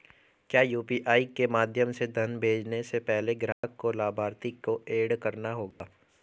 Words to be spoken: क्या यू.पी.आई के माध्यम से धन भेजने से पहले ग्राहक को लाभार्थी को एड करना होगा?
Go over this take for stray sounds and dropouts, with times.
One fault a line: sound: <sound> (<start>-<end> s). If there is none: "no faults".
sound: dropout (3.5-3.6 s)
sound: dropout (5.7-5.8 s)